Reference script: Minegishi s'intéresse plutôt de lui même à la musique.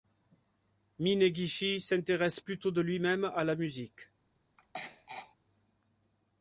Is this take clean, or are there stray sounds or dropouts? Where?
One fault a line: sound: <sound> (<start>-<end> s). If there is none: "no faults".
sound: throat clearing (4.6-5.4 s)